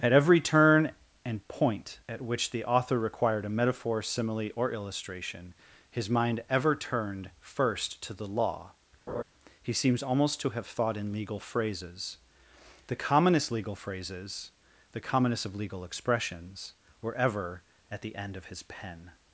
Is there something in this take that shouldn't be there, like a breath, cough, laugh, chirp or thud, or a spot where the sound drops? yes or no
yes